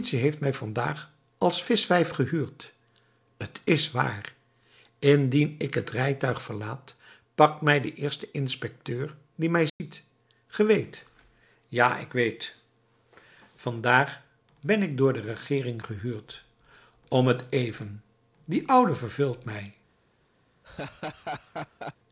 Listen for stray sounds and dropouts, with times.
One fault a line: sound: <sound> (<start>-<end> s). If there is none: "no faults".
sound: dropout (9.7-9.8 s)
sound: laugh (20.6-22.0 s)